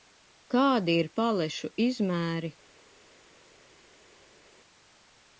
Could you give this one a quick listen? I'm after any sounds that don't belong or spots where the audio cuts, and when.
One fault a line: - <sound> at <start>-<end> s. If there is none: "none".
none